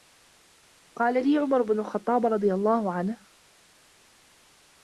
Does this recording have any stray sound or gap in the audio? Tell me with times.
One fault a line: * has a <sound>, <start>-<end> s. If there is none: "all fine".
all fine